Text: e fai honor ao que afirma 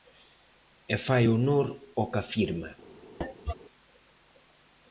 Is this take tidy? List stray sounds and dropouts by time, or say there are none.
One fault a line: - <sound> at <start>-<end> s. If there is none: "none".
- cough at 3.2-3.5 s